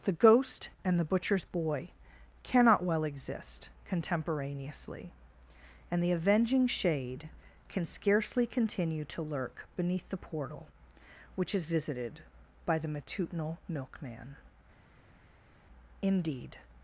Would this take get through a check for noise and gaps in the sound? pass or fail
pass